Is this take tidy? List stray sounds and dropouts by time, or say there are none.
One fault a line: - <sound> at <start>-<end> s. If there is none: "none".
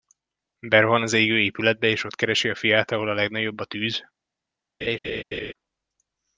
- laugh at 4.8-5.5 s